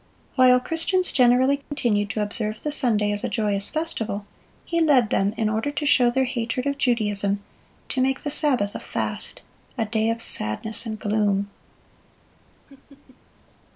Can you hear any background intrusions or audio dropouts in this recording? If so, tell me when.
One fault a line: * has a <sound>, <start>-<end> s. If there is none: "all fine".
* has a dropout, 1.6-1.7 s
* has a laugh, 12.7-13.2 s